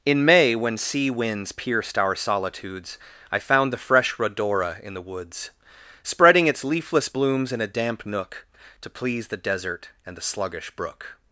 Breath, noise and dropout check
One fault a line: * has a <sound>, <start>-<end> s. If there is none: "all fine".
all fine